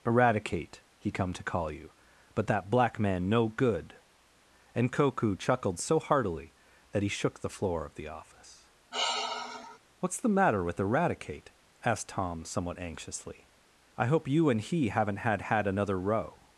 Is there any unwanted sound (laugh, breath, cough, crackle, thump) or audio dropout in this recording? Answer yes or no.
yes